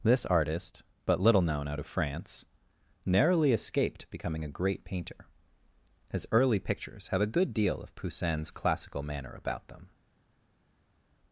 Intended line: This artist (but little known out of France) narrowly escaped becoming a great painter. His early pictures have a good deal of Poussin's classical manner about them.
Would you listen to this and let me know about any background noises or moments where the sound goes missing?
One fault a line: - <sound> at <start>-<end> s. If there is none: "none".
none